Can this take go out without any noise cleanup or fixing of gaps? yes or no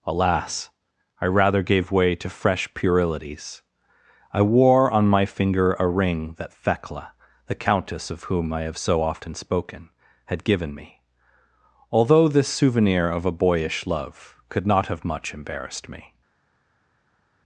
yes